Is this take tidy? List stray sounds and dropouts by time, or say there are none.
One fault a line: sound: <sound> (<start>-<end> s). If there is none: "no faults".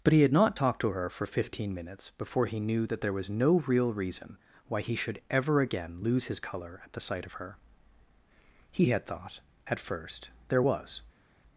no faults